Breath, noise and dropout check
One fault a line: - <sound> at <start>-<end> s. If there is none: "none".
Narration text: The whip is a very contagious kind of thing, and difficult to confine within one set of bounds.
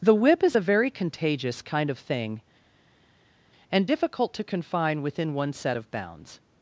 none